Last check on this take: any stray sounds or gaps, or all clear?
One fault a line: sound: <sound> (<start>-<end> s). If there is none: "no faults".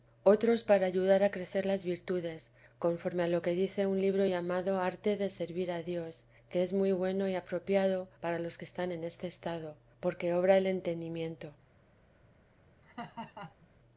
sound: laugh (12.8-13.7 s)